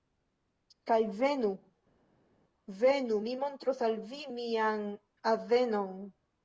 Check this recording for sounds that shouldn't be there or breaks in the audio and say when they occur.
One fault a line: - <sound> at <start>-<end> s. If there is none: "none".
none